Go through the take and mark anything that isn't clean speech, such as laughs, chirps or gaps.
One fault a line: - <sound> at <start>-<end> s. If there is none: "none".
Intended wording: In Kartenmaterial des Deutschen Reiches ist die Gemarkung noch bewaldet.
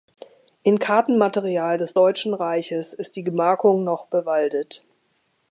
none